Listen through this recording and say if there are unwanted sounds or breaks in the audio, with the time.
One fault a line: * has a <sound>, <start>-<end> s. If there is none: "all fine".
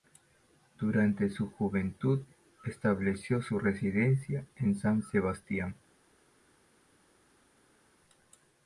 all fine